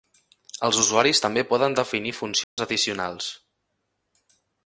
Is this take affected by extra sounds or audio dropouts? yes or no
yes